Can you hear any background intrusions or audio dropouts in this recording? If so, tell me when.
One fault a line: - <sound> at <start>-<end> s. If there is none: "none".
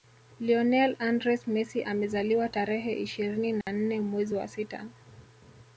- dropout at 3.6-3.7 s